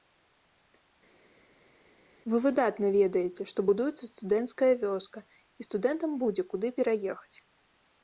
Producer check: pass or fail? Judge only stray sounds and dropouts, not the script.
pass